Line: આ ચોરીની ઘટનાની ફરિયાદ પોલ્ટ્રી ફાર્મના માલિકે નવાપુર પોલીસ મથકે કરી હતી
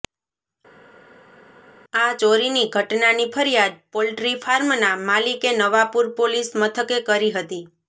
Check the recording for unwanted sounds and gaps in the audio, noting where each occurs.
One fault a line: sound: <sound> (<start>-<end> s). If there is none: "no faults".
no faults